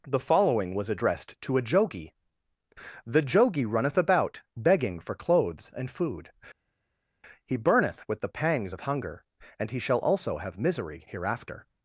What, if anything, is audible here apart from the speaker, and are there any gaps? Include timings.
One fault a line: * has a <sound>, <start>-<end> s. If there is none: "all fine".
all fine